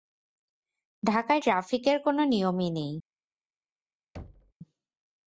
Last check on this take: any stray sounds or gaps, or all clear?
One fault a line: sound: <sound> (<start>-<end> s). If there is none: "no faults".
sound: thud (4.1-4.5 s)